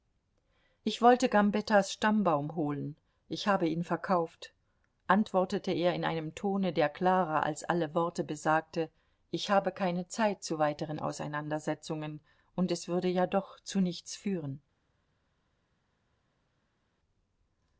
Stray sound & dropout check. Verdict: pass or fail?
pass